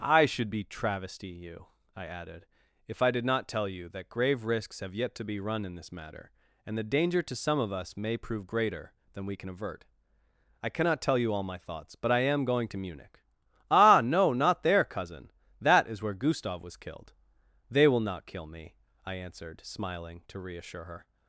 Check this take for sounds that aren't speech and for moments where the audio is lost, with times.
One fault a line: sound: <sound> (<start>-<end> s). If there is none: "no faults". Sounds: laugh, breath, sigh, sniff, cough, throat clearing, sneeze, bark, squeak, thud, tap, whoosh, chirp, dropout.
no faults